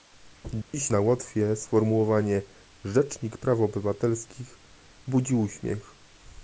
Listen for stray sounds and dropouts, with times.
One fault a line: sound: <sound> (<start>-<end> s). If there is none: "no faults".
sound: dropout (0.6-0.7 s)